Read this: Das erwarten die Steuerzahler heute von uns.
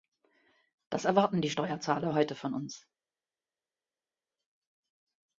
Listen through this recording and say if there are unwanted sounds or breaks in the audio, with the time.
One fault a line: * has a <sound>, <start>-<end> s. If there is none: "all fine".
all fine